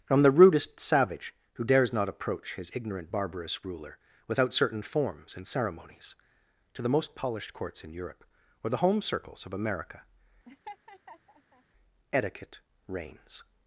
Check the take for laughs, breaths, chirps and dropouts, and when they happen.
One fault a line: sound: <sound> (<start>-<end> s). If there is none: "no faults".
sound: laugh (10.4-11.6 s)